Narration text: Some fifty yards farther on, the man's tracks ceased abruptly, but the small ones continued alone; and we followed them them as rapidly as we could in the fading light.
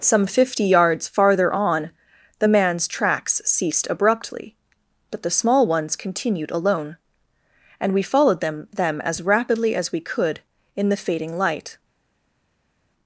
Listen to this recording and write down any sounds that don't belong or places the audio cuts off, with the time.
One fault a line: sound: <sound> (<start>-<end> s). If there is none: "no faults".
no faults